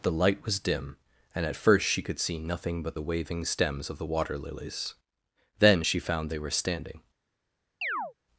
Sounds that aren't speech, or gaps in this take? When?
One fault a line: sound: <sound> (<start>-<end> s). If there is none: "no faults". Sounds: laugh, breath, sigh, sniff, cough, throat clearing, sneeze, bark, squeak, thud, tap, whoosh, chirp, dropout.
sound: chirp (7.8-8.1 s)